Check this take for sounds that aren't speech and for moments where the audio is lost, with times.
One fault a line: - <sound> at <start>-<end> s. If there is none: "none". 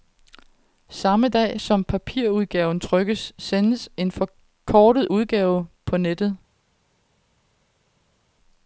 none